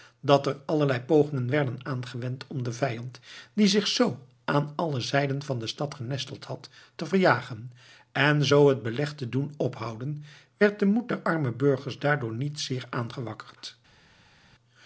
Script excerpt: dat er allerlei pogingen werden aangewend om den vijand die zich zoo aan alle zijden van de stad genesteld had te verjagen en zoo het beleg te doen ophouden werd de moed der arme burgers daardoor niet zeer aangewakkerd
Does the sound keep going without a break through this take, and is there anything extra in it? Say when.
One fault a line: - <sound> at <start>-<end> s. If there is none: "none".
none